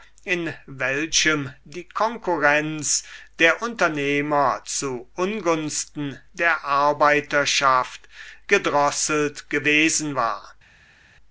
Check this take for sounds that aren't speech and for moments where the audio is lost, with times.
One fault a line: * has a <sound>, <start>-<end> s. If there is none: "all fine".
all fine